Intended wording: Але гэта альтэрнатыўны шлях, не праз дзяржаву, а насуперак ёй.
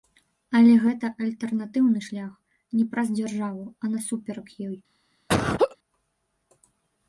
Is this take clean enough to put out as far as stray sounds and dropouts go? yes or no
no